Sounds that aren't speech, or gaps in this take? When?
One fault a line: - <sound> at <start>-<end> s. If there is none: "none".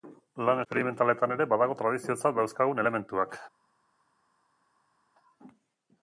none